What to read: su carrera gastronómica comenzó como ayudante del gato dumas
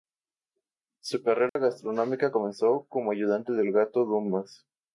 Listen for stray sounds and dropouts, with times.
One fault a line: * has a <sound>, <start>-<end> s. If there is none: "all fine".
* has a dropout, 1.5-1.6 s